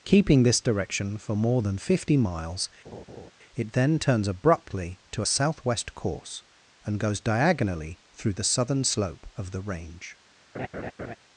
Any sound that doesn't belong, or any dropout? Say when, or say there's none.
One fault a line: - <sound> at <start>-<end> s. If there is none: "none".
- laugh at 2.8-3.3 s
- laugh at 10.5-11.2 s